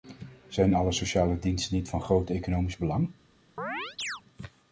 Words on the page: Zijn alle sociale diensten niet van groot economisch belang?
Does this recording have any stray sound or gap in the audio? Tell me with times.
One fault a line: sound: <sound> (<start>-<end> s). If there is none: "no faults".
sound: chirp (3.6-4.2 s)